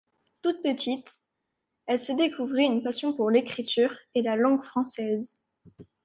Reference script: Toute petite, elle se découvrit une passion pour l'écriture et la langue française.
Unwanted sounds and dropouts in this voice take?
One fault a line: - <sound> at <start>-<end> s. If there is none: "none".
none